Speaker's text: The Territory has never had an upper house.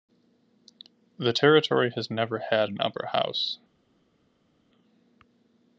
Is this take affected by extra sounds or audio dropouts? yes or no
no